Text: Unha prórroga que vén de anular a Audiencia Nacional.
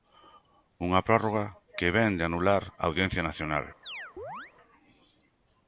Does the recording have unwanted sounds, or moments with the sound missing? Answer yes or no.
yes